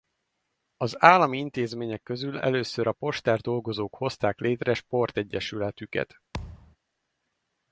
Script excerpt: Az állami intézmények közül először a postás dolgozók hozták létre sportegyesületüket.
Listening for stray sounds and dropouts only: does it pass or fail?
fail